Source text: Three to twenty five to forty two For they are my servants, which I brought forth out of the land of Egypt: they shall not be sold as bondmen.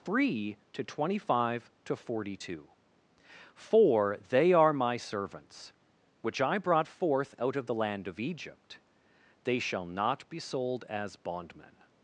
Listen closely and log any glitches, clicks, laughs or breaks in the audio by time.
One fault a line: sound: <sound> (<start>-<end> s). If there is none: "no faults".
no faults